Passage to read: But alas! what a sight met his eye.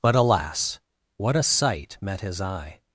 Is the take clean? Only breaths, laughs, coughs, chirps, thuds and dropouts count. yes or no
yes